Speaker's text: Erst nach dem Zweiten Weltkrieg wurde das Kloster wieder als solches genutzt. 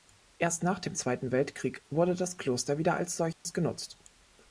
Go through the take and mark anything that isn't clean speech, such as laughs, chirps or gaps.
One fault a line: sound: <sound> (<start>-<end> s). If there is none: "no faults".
sound: dropout (3.3-3.4 s)